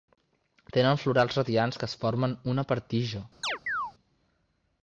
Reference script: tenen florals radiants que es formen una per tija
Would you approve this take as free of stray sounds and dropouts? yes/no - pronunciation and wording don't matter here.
no